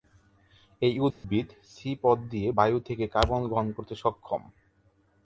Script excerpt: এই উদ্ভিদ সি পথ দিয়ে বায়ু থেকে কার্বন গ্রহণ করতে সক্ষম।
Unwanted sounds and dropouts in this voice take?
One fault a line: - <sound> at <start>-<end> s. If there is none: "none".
- dropout at 1.1-1.2 s